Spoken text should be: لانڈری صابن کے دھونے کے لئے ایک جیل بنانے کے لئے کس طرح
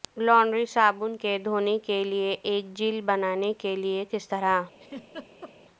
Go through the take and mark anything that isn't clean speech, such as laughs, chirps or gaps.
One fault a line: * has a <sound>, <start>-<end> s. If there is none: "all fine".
* has a laugh, 4.8-5.5 s